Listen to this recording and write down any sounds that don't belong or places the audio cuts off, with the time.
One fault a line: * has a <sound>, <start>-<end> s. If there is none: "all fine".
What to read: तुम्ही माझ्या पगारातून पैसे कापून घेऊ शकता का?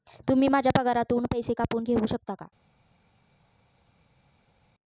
all fine